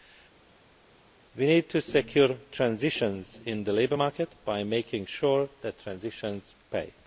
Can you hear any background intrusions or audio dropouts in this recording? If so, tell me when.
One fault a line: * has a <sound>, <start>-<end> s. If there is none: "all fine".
all fine